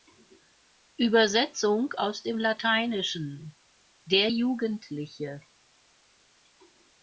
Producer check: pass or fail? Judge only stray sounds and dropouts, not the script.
pass